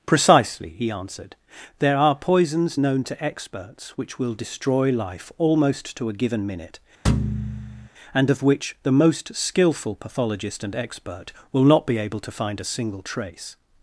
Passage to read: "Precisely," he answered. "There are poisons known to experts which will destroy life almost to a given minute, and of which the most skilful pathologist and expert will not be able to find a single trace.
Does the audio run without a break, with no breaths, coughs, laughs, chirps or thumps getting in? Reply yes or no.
no